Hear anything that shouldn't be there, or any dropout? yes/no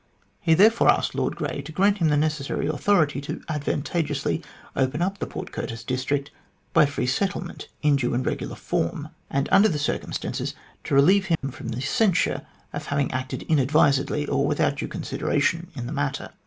yes